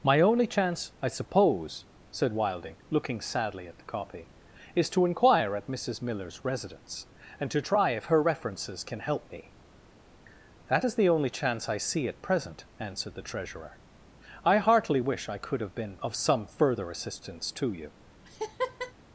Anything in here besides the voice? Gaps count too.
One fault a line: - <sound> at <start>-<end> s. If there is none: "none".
- laugh at 18.2-18.9 s